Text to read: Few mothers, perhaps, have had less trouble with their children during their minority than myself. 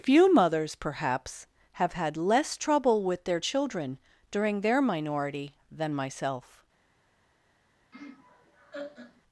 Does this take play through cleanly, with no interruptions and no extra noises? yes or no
no